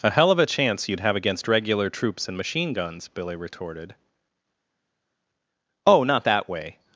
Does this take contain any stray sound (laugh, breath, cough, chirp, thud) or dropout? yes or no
no